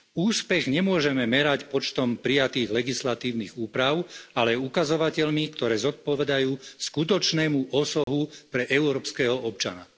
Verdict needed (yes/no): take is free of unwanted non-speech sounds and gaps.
no